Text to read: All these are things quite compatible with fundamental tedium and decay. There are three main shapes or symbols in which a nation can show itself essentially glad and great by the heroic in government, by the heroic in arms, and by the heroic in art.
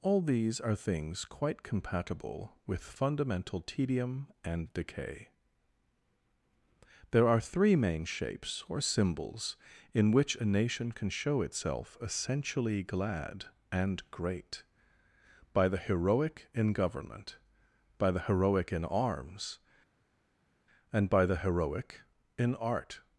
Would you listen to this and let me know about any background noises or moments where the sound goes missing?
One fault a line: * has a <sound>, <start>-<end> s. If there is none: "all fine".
all fine